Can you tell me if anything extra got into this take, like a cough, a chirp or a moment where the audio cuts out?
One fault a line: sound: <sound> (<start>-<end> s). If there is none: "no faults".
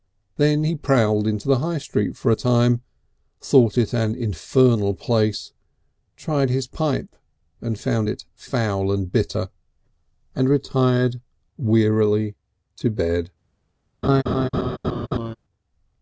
sound: laugh (14.0-15.4 s)